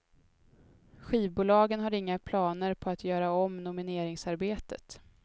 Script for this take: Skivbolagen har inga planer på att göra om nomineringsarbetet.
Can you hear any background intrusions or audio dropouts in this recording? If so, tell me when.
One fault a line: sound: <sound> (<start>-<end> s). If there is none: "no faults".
no faults